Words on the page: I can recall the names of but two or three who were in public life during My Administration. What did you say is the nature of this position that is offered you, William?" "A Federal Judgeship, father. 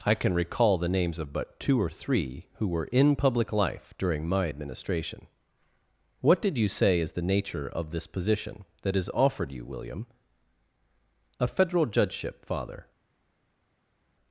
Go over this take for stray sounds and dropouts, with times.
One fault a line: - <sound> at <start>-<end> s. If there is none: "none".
none